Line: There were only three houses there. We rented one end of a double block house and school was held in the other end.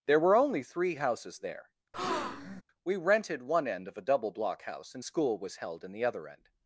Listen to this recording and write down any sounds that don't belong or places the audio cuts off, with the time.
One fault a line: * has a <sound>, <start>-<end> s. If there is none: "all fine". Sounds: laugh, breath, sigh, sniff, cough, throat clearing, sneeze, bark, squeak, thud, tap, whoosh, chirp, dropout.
* has a breath, 1.9-2.6 s